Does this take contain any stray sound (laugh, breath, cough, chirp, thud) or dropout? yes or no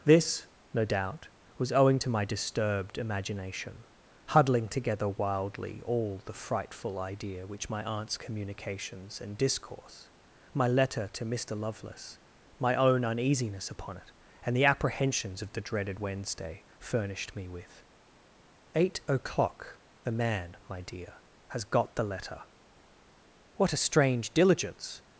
no